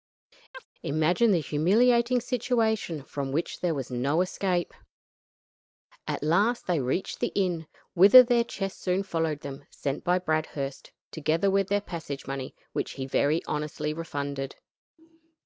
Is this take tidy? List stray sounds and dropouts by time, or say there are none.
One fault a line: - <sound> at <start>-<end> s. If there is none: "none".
- chirp at 0.5-0.7 s